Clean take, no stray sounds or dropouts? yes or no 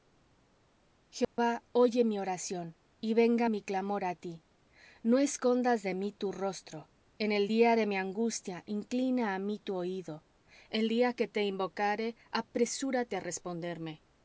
no